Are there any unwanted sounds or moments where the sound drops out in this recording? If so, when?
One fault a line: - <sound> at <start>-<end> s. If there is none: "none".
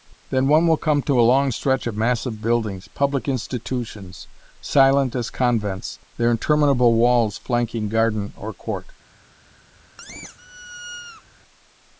- squeak at 10.0-11.2 s